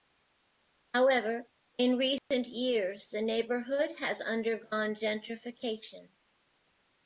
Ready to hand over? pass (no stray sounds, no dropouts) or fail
fail